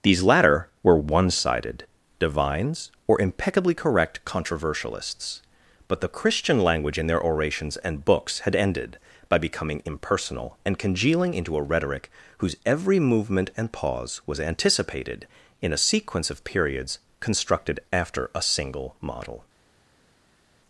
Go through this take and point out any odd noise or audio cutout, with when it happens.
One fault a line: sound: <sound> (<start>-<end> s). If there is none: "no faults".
no faults